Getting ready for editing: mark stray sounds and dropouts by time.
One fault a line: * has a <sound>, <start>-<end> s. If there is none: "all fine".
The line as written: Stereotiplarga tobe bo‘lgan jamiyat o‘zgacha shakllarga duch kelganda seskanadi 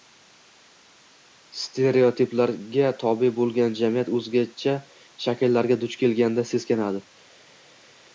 all fine